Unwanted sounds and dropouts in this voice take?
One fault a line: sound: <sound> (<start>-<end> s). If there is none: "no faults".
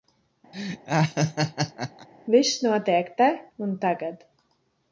sound: laugh (0.5-2.1 s)